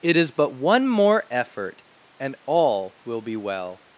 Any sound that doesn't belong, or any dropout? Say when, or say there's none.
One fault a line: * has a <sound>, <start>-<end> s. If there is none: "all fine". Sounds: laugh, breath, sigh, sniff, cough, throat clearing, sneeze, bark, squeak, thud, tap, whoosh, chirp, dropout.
all fine